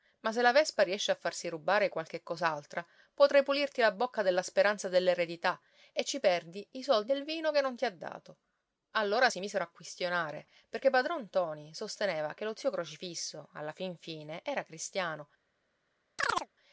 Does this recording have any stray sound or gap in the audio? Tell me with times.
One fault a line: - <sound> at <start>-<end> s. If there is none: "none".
- chirp at 16.2-16.5 s